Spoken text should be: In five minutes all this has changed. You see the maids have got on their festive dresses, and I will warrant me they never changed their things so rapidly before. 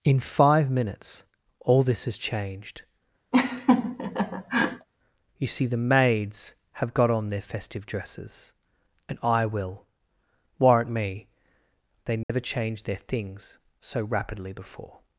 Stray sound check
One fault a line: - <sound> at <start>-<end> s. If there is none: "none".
- laugh at 3.3-4.9 s
- dropout at 12.2-12.3 s